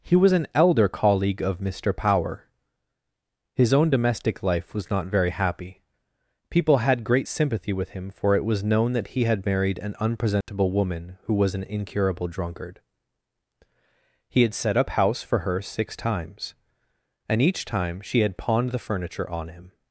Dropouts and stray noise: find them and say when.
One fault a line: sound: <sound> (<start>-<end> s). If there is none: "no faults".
sound: dropout (10.4-10.5 s)